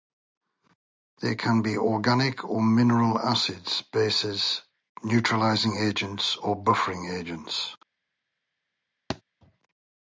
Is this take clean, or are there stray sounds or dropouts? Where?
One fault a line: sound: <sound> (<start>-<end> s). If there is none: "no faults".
sound: thud (9.1-9.2 s)